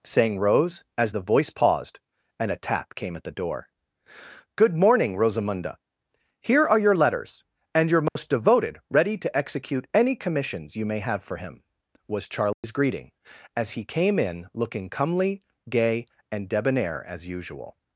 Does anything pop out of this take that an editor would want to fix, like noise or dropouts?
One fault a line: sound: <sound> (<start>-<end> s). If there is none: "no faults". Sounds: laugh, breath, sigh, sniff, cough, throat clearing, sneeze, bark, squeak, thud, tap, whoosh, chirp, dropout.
sound: dropout (8.1-8.2 s)
sound: dropout (12.5-12.6 s)